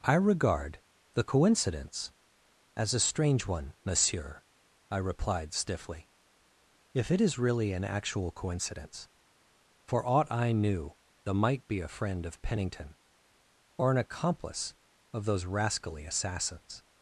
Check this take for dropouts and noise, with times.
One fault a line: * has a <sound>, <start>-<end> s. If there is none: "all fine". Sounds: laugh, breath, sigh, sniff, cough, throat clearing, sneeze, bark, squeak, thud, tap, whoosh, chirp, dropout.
all fine